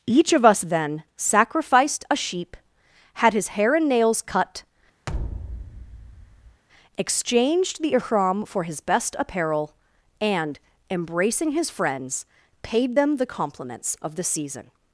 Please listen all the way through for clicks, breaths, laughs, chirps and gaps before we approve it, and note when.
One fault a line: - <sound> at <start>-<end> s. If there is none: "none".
- thud at 5.1-6.6 s